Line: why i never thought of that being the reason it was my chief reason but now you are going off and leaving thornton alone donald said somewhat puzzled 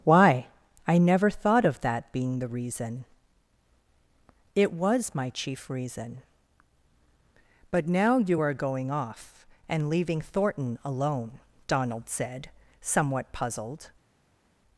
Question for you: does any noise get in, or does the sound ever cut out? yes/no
no